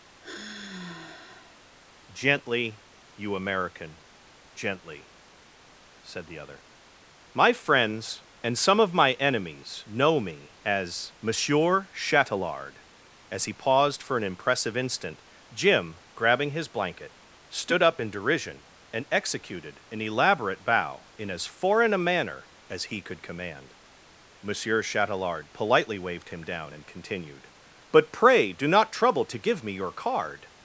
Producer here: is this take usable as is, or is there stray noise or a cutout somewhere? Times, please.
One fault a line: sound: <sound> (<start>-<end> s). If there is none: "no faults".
sound: sigh (0.2-1.7 s)